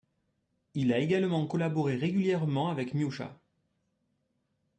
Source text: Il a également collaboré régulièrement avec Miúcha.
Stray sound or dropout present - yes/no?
no